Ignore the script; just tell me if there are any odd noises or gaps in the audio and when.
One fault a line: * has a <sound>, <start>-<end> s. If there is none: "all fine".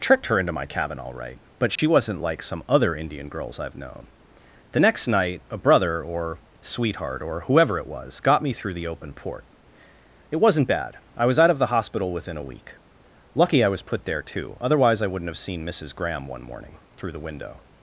* has a dropout, 1.8-1.8 s